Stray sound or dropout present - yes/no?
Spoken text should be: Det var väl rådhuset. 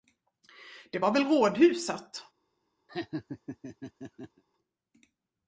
yes